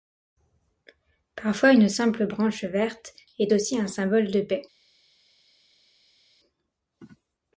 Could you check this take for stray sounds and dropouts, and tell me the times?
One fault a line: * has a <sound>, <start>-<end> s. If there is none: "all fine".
all fine